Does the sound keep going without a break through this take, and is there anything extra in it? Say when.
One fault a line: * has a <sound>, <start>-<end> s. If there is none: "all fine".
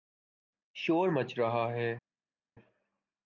all fine